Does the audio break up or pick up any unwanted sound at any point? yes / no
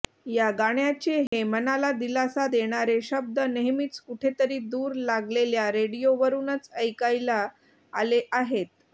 yes